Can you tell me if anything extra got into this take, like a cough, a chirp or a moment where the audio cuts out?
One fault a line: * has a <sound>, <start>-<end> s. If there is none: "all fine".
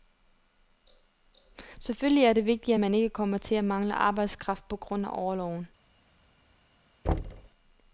* has a thud, 7.0-7.5 s